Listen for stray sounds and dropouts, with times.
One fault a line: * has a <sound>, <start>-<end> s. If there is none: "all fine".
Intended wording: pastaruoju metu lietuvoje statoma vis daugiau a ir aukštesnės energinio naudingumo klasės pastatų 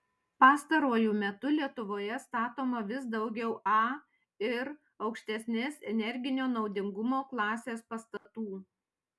* has a dropout, 8.2-8.3 s